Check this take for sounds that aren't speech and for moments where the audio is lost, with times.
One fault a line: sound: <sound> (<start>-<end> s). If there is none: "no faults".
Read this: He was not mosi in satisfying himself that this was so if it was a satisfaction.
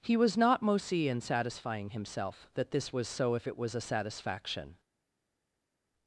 no faults